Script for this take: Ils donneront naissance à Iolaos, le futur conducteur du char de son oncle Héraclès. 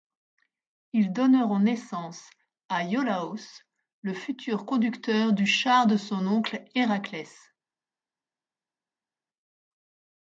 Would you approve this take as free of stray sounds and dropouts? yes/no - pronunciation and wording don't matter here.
yes